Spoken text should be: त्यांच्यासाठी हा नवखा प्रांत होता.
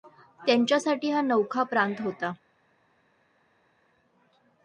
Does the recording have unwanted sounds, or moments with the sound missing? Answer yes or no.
no